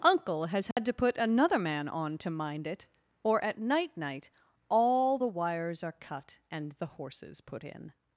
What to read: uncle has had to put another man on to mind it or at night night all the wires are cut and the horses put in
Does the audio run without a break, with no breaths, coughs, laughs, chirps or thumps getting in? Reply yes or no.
no